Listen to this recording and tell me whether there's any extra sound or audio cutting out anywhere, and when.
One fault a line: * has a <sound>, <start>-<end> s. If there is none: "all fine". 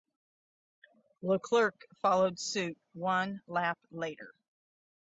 all fine